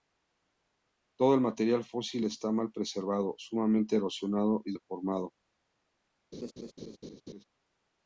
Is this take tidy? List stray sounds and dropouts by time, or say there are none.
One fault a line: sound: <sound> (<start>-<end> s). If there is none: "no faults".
sound: laugh (6.3-7.4 s)